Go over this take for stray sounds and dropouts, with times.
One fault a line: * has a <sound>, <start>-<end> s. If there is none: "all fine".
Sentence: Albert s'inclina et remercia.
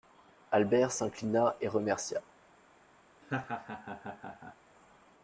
* has a laugh, 3.2-4.6 s